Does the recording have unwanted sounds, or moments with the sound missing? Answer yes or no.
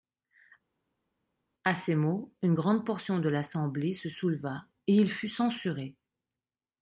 no